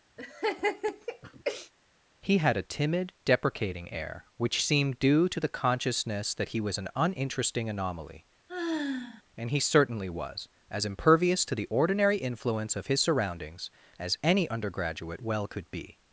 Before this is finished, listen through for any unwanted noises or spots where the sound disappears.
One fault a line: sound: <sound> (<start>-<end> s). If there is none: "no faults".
sound: laugh (0.2-1.7 s)
sound: sigh (8.5-9.2 s)